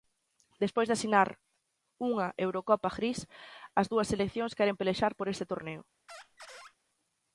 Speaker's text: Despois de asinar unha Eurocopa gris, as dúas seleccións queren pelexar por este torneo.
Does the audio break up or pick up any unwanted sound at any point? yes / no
yes